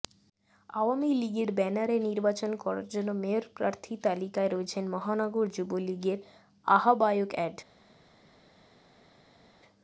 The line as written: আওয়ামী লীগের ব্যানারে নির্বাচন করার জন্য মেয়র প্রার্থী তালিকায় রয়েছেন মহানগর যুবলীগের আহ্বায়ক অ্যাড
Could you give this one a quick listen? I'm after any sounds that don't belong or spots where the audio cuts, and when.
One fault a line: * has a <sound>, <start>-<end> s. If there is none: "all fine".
all fine